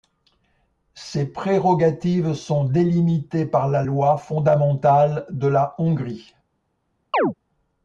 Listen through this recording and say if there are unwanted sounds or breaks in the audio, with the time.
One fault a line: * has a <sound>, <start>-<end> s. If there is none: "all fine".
* has a chirp, 7.1-7.3 s